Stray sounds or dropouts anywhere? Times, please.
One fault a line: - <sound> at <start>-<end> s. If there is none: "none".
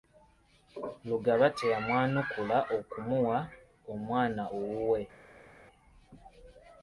none